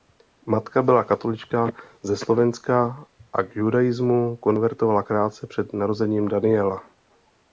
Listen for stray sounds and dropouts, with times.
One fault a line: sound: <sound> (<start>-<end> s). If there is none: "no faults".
no faults